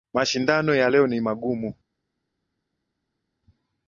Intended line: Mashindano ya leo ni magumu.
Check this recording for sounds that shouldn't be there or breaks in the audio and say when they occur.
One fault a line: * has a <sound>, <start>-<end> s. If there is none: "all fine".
all fine